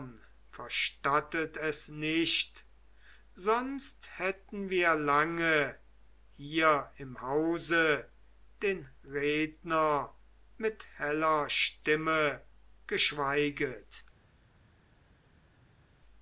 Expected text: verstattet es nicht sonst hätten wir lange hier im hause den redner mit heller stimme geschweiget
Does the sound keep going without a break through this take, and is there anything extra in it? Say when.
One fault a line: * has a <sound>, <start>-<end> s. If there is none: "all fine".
all fine